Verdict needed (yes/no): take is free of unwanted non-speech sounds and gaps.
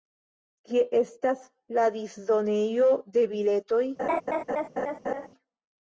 no